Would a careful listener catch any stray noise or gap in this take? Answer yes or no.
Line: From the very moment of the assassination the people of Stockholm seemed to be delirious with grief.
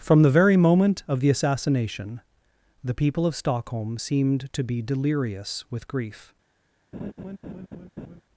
yes